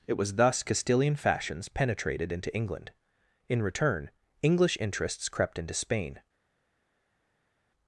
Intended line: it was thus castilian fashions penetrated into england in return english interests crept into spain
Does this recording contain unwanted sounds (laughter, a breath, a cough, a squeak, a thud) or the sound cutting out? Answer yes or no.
no